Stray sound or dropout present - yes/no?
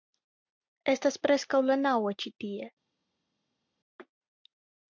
no